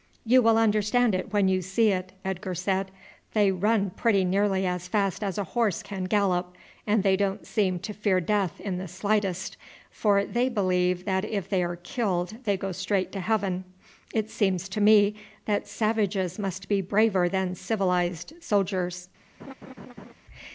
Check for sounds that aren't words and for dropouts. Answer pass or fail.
fail